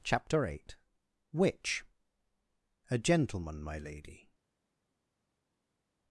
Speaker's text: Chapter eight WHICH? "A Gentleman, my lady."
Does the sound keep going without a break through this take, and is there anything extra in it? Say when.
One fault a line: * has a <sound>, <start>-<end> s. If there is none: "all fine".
all fine